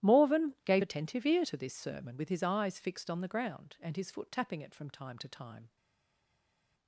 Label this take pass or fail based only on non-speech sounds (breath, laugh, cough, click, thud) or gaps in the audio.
pass